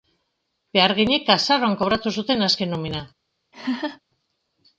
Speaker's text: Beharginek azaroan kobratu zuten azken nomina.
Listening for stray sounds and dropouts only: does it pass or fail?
fail